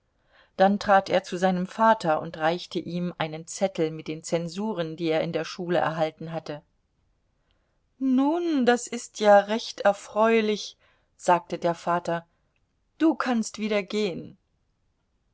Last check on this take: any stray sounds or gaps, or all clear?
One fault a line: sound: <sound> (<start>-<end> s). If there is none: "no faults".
no faults